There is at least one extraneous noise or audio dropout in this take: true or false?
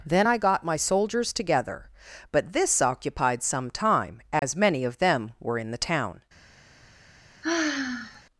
true